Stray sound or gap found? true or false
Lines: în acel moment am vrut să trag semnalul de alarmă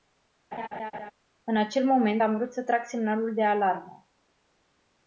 true